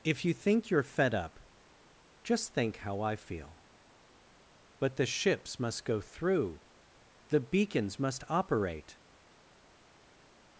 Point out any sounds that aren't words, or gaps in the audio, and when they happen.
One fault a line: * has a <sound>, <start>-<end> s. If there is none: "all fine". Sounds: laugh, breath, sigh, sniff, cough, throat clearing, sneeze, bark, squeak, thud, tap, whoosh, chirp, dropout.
all fine